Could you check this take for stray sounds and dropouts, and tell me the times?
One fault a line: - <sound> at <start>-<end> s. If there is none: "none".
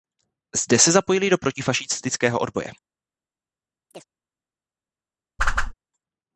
- chirp at 3.9-4.0 s
- whoosh at 5.4-5.7 s